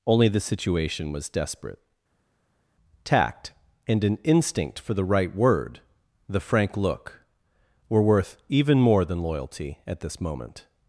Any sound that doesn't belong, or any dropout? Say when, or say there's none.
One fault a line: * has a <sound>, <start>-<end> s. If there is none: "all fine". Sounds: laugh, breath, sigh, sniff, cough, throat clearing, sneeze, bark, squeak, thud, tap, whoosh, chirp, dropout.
all fine